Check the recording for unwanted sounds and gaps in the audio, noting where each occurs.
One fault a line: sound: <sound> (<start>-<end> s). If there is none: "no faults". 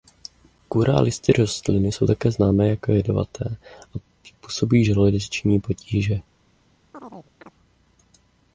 sound: chirp (6.9-7.5 s)